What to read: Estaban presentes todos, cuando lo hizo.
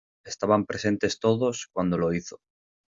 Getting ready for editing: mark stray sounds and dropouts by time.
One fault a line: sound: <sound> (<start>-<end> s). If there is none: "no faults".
no faults